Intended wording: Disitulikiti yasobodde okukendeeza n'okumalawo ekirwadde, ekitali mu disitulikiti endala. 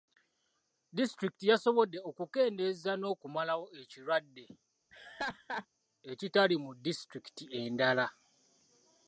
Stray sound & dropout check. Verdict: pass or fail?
fail